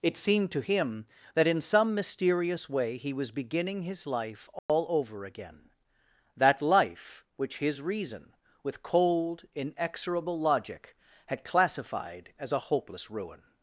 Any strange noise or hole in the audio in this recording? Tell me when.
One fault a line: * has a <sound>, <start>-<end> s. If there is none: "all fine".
* has a dropout, 4.6-4.7 s